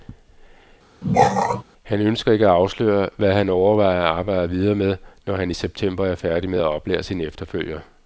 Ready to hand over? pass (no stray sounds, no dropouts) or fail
fail